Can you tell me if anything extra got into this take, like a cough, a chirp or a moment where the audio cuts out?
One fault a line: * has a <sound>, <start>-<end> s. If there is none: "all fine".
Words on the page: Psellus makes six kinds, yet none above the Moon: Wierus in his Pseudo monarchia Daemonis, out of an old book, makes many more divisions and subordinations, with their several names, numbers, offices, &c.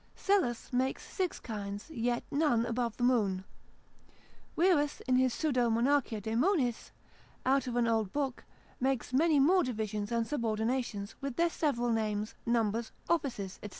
all fine